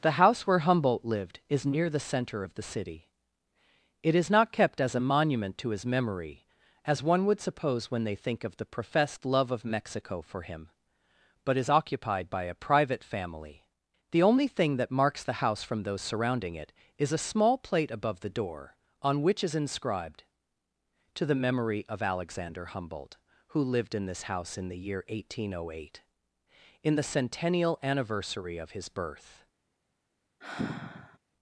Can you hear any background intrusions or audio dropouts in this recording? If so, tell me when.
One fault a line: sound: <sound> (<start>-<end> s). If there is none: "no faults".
sound: sigh (30.4-31.2 s)